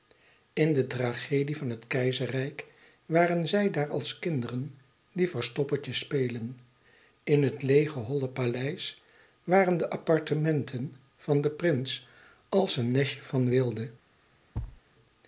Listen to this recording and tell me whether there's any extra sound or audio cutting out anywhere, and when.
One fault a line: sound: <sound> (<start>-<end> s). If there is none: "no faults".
sound: thud (14.5-14.8 s)